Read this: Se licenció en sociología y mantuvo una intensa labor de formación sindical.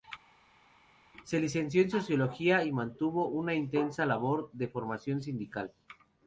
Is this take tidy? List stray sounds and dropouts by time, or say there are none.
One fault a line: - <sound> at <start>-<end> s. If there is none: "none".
none